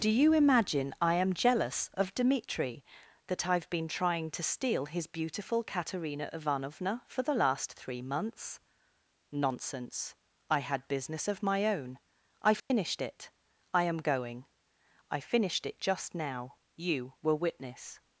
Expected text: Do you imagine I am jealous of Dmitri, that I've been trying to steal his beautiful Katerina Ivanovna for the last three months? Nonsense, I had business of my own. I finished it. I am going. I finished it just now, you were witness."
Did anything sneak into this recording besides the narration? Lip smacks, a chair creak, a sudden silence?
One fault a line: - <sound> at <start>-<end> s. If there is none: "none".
- dropout at 12.6-12.7 s